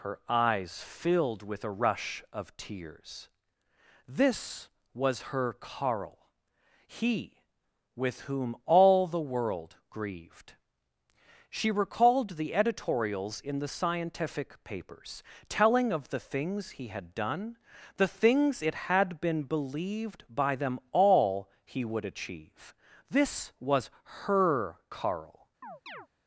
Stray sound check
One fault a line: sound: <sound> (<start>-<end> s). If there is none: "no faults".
sound: chirp (25.6-26.1 s)